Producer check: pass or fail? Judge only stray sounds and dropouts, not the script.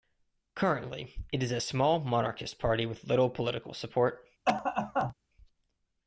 fail